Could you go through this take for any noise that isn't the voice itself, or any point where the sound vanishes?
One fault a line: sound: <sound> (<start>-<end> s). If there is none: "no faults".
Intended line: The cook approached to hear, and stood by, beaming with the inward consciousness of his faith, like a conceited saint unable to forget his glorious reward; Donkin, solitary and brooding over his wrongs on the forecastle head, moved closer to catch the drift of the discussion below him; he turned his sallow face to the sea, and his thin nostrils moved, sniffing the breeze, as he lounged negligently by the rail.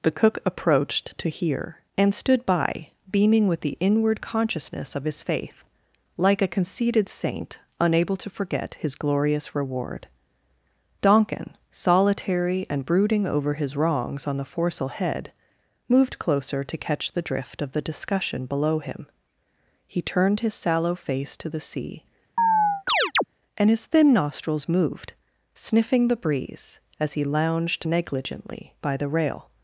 sound: chirp (22.4-23.2 s)